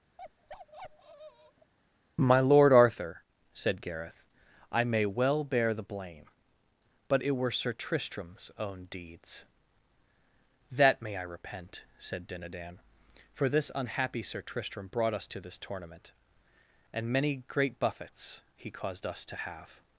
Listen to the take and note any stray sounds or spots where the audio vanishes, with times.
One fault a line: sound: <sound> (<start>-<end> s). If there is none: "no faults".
sound: bark (0.2-1.7 s)